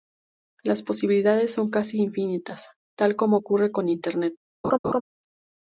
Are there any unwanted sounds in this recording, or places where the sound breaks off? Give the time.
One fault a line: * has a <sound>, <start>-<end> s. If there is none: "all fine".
* has a laugh, 4.6-5.0 s